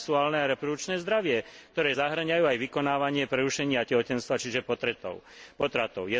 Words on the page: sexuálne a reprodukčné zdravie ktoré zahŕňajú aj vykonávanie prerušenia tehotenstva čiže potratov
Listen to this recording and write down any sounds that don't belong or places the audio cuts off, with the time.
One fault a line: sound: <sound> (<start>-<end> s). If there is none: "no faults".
no faults